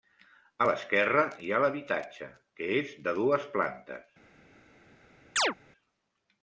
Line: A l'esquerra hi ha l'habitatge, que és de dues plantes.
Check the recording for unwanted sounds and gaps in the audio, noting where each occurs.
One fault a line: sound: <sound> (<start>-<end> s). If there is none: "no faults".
sound: chirp (5.4-5.5 s)